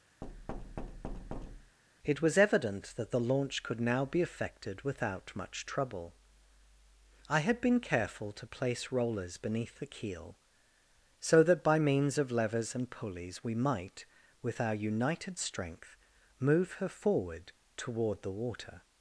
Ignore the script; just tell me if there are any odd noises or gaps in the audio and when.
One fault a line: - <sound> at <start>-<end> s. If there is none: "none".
- thud at 0.2-1.8 s